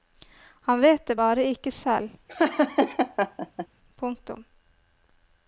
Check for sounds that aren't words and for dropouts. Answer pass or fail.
fail